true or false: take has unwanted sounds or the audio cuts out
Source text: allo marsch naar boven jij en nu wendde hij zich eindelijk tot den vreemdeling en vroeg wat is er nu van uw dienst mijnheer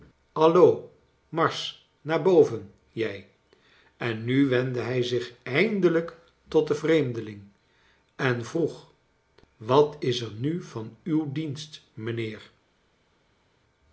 false